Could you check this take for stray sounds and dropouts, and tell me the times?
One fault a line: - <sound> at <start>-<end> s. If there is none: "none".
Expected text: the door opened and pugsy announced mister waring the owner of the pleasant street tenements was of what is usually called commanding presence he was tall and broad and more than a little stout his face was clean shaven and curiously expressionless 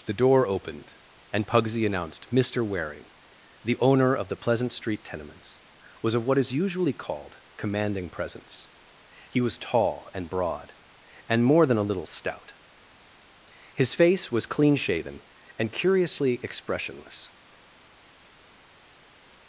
none